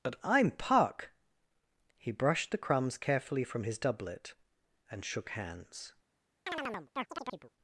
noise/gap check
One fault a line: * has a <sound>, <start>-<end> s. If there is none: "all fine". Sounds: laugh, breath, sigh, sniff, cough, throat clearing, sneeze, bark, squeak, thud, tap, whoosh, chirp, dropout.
* has a chirp, 6.5-7.5 s